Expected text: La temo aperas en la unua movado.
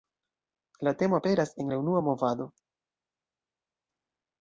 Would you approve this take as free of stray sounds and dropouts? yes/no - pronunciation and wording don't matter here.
yes